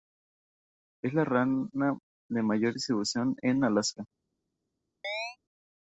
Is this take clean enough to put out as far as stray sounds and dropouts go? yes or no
no